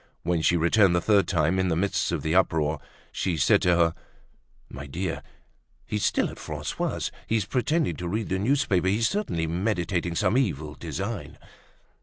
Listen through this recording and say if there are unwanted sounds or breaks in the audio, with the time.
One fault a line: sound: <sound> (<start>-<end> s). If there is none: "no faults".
no faults